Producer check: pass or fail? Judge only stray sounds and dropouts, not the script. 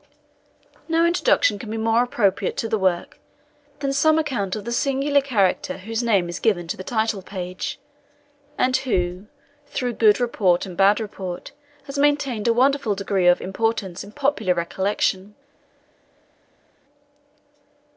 pass